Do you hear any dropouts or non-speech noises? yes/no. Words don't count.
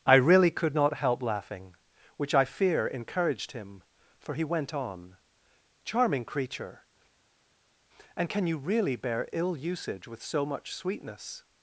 no